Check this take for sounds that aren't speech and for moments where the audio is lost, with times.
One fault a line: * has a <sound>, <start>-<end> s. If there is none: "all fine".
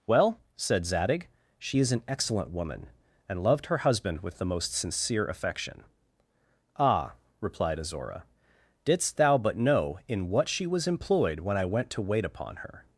all fine